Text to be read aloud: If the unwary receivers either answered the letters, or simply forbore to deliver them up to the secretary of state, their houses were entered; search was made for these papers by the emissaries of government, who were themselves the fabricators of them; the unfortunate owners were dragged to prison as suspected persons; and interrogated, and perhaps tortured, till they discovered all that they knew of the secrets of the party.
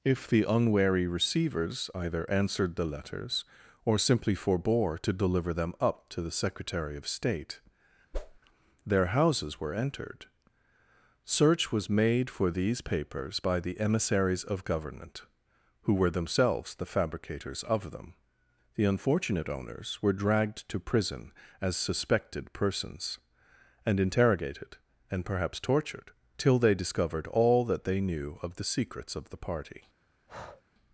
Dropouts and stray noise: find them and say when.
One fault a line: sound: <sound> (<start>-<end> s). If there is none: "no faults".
sound: whoosh (8.1-8.4 s)
sound: breath (30.3-30.6 s)